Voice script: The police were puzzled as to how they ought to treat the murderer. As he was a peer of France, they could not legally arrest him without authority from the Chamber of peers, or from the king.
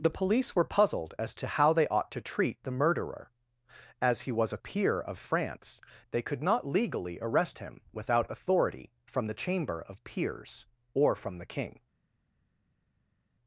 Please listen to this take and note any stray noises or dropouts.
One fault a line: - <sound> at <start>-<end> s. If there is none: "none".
none